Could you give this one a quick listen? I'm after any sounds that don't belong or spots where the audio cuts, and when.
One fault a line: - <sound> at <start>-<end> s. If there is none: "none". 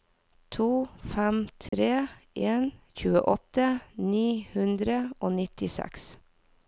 - dropout at 1.7-1.7 s